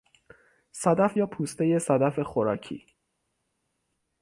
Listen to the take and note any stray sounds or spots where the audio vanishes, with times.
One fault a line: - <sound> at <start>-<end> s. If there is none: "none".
none